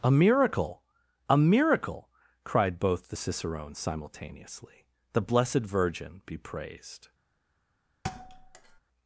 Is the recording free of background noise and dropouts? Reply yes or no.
no